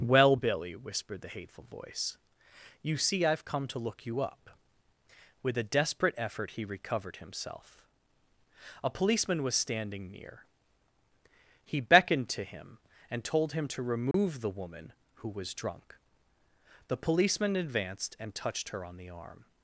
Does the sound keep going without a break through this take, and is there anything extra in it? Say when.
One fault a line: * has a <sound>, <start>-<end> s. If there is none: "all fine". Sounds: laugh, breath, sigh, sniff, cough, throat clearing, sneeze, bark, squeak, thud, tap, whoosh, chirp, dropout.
* has a dropout, 14.1-14.1 s